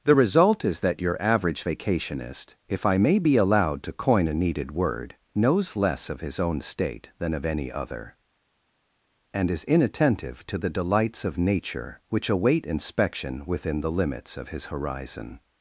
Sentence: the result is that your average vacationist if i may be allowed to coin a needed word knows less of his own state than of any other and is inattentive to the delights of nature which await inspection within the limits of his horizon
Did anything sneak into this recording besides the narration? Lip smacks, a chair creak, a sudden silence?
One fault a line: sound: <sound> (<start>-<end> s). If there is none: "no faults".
no faults